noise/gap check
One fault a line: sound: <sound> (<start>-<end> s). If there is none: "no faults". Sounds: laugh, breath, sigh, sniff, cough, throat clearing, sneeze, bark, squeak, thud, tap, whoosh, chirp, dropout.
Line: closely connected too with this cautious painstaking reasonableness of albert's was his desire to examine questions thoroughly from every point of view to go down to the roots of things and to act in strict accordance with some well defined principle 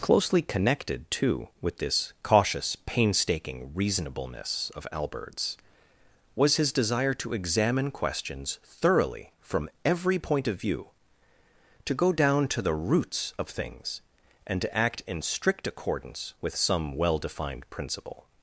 no faults